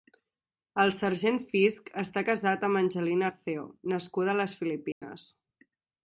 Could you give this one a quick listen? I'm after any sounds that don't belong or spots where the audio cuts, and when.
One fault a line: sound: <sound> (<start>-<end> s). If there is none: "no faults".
sound: dropout (4.9-5.0 s)